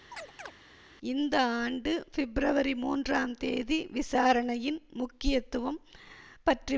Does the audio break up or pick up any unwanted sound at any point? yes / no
yes